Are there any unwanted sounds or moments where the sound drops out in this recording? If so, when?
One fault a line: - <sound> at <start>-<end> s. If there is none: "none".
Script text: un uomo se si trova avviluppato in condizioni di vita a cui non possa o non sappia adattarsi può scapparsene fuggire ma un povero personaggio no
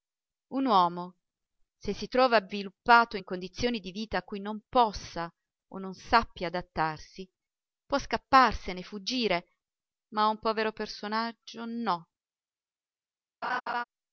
- laugh at 13.4-13.8 s